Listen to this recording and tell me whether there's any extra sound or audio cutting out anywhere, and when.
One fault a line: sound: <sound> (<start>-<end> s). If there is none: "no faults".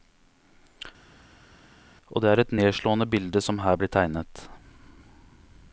no faults